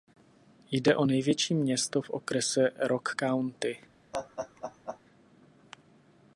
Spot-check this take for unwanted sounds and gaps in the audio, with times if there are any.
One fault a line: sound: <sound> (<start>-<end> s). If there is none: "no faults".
sound: laugh (4.1-5.0 s)